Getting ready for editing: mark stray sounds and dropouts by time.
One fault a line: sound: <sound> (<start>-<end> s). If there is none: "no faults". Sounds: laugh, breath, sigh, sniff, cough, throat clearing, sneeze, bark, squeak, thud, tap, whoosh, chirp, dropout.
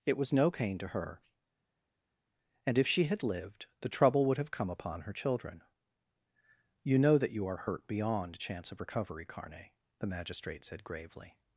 no faults